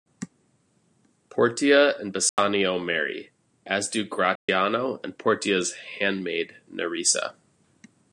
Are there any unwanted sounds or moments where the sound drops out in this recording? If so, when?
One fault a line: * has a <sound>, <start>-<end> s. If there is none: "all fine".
* has a dropout, 2.3-2.4 s
* has a dropout, 4.4-4.5 s